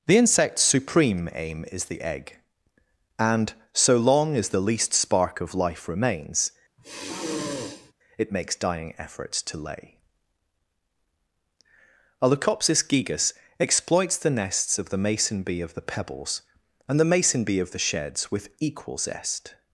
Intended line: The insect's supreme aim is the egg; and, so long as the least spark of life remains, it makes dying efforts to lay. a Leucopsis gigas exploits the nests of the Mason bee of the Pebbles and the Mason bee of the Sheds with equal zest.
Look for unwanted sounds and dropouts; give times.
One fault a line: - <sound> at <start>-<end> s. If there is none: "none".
- sigh at 6.8-7.9 s